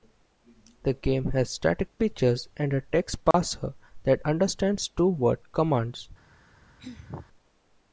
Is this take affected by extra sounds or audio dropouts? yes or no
yes